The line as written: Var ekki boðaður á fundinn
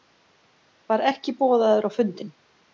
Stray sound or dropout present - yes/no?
no